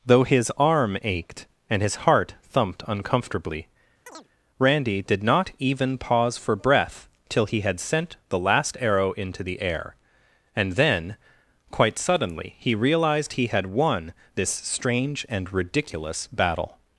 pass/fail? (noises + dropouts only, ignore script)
fail